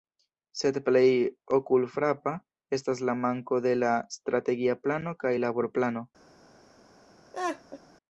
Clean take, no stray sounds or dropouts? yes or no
no